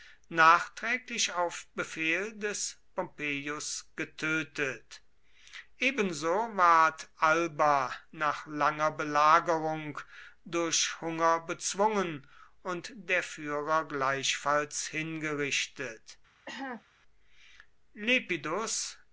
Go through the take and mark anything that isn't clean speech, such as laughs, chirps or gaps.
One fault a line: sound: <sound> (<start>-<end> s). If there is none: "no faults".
sound: cough (16.5-16.8 s)